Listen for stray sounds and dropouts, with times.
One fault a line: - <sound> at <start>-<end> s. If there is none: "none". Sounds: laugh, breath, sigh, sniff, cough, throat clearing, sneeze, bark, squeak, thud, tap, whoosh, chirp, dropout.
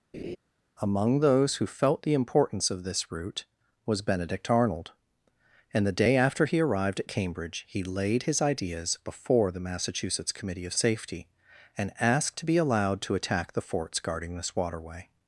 - laugh at 0.1-0.4 s